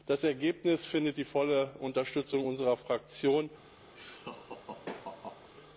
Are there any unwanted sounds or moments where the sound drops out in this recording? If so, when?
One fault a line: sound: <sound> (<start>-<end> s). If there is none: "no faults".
sound: laugh (4.0-5.5 s)